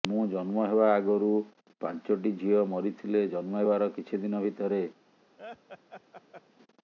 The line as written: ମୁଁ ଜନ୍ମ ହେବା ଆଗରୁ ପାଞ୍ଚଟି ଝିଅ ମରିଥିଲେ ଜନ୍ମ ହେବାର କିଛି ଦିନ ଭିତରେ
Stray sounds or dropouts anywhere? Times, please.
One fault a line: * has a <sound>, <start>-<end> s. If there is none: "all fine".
* has a laugh, 5.4-6.4 s